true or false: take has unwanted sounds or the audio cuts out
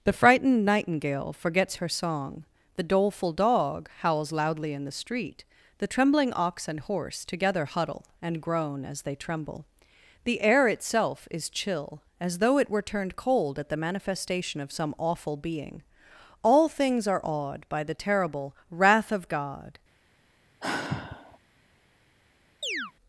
true